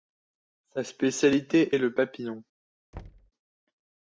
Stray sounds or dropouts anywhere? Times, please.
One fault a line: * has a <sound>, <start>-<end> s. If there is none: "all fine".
* has a thud, 2.9-3.3 s